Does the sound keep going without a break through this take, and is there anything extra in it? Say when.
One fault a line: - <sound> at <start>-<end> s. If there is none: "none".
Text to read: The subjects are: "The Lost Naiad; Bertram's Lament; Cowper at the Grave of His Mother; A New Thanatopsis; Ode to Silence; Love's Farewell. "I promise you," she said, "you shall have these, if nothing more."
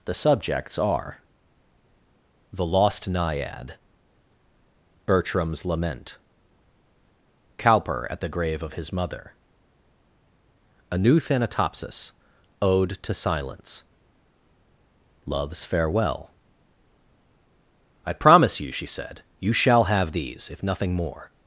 none